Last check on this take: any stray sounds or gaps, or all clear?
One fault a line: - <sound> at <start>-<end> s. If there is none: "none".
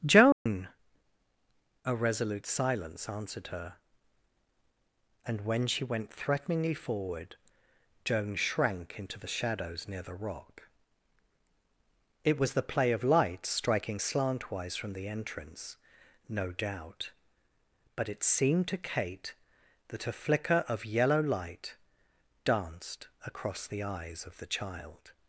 - dropout at 0.3-0.5 s